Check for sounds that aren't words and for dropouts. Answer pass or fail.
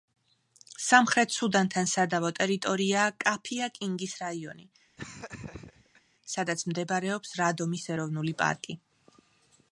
fail